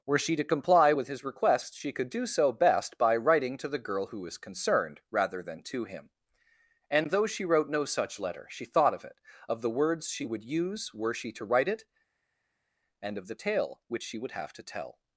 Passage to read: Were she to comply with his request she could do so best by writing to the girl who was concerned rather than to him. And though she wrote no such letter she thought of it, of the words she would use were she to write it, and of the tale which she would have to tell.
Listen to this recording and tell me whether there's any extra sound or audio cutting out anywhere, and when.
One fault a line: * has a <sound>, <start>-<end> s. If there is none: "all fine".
all fine